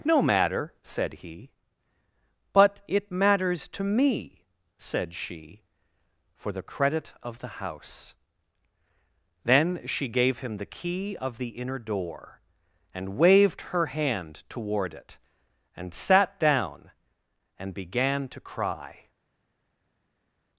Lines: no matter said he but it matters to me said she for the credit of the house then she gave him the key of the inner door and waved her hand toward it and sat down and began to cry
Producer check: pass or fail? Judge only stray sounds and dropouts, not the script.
pass